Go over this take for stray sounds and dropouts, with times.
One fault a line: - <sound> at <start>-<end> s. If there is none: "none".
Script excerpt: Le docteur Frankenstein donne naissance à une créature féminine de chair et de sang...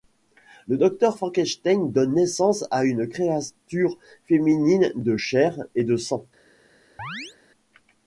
- chirp at 7.0-7.4 s